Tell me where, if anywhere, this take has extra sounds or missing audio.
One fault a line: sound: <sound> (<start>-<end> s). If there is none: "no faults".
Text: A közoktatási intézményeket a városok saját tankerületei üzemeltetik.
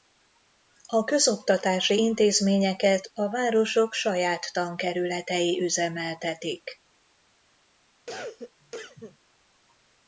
sound: cough (8.1-9.2 s)